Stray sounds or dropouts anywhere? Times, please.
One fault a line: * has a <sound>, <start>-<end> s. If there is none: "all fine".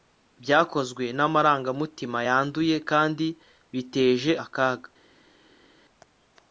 all fine